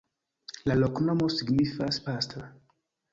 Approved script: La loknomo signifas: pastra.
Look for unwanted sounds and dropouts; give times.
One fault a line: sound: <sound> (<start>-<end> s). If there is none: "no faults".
no faults